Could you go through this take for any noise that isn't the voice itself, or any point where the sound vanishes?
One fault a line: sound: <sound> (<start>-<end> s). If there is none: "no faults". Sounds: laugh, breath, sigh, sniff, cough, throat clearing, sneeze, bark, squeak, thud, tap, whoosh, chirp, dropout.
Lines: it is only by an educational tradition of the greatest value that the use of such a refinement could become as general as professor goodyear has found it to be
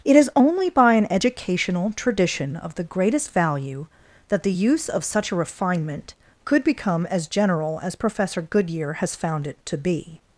no faults